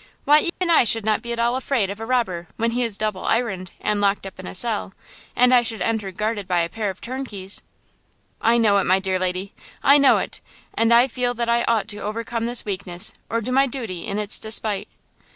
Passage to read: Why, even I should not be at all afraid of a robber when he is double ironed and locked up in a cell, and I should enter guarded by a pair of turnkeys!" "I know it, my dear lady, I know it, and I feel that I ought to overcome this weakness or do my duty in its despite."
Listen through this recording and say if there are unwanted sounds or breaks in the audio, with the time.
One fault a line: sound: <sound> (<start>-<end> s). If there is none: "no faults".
sound: dropout (0.5-0.6 s)